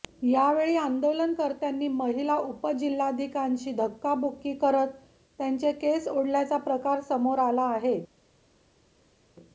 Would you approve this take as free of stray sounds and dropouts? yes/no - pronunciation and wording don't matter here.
yes